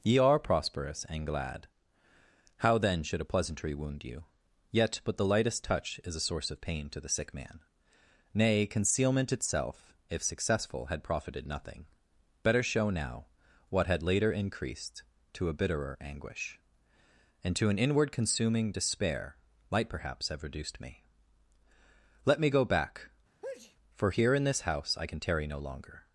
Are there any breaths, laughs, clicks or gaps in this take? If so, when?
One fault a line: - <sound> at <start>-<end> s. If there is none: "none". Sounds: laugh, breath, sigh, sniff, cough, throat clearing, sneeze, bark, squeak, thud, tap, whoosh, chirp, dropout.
- sneeze at 23.4-23.8 s